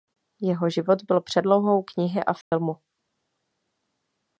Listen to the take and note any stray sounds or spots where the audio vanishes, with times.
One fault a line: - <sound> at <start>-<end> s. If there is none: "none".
- dropout at 2.4-2.5 s